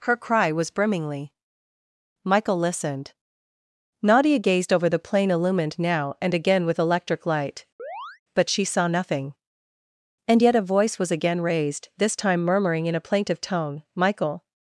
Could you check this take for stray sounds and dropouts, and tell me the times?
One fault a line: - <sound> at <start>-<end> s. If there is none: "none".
- chirp at 7.8-8.2 s